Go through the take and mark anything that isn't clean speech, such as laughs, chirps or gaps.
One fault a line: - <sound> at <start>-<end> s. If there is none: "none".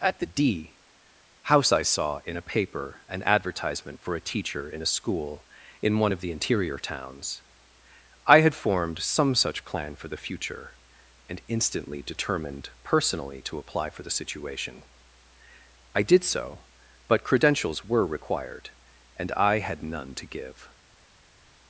none